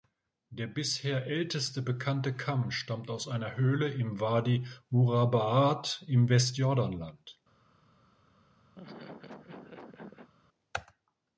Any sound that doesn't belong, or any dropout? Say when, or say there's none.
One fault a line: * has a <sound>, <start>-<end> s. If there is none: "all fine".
* has a laugh, 8.7-10.3 s